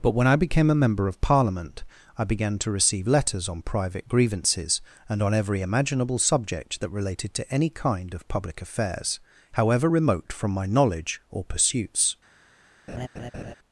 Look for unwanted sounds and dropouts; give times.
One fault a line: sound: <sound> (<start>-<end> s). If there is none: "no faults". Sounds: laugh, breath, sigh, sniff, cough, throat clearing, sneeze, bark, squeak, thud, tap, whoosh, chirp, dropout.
sound: laugh (12.9-13.6 s)